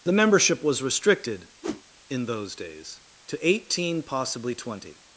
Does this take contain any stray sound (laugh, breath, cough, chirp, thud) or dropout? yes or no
yes